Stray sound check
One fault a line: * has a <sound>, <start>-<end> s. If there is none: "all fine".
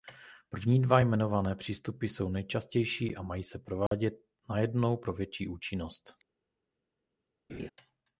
* has a dropout, 3.9-3.9 s
* has a laugh, 7.5-7.7 s